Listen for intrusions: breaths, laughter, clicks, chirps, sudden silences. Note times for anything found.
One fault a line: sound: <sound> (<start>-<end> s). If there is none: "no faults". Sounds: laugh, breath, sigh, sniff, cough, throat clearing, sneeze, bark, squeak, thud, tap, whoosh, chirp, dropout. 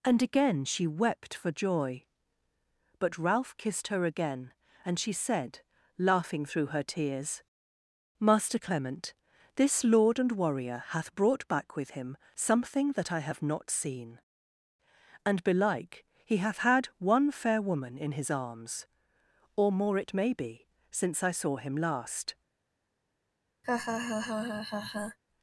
sound: laugh (23.6-25.2 s)